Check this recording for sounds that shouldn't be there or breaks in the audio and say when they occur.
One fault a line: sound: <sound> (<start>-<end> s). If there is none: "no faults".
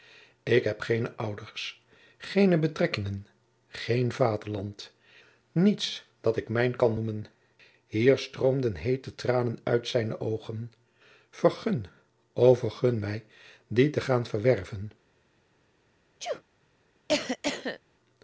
sound: sneeze (16.2-16.4 s)
sound: cough (17.1-17.8 s)